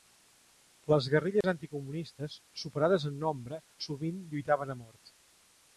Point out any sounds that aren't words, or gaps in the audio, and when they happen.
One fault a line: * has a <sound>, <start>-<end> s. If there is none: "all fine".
* has a dropout, 1.4-1.4 s